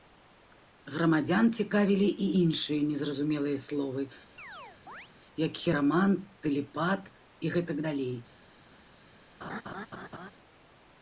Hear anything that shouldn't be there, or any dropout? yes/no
yes